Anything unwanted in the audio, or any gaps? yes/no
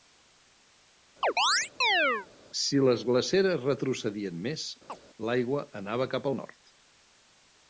yes